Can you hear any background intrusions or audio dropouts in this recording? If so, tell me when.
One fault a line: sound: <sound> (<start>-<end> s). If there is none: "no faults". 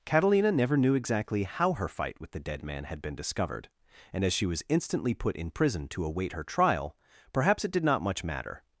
no faults